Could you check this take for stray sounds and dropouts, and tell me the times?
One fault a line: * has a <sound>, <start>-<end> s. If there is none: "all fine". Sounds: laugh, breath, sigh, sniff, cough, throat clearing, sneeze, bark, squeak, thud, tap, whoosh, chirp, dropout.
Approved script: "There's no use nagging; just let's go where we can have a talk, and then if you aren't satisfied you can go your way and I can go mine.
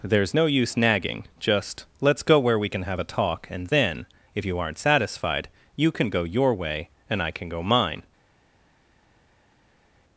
all fine